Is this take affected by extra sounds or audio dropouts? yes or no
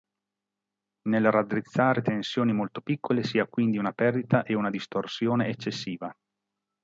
no